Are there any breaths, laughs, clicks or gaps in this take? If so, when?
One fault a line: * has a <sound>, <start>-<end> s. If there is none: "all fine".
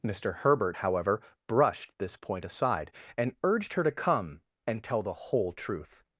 all fine